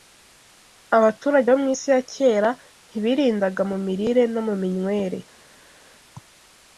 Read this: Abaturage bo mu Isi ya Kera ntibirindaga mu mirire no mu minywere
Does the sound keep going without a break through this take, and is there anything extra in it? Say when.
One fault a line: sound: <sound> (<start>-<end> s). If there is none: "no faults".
no faults